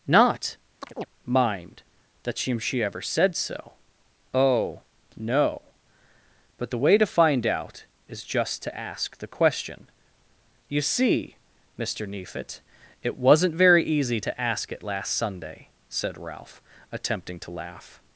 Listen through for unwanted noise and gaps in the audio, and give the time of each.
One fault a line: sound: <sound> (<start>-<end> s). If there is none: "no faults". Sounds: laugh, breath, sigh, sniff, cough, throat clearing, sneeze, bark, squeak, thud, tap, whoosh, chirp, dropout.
sound: chirp (0.8-1.1 s)